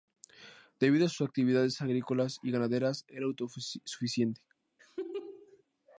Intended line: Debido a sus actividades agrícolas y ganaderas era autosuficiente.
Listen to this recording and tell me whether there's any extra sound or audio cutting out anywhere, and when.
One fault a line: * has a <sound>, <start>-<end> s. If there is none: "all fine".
* has a laugh, 4.8-5.6 s